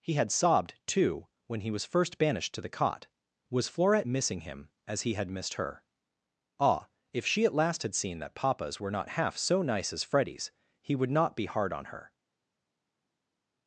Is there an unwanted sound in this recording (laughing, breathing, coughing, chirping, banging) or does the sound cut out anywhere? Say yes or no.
no